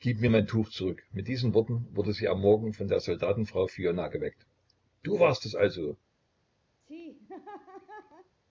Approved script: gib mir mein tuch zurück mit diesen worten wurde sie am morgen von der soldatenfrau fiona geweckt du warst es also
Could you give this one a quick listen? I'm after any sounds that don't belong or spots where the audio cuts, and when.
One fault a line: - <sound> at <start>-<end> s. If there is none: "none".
- laugh at 6.8-8.4 s